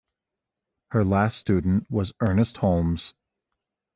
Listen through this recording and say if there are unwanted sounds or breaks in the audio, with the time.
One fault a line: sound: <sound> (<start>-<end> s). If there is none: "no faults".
no faults